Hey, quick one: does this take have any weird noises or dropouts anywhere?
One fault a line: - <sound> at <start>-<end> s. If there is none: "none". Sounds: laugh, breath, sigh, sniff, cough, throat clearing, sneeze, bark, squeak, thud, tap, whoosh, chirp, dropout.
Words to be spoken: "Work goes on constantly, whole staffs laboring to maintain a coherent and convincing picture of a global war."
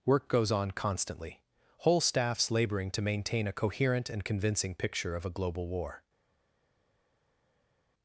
none